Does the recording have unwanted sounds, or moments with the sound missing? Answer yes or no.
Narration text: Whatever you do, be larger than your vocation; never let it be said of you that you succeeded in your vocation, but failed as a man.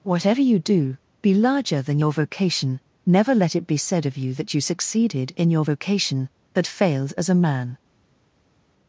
no